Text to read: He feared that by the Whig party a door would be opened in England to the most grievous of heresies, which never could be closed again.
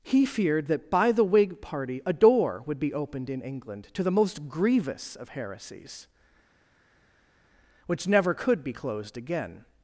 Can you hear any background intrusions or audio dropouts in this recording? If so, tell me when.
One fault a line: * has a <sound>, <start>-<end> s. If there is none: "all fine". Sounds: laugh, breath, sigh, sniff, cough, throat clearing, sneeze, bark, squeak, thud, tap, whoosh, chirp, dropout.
all fine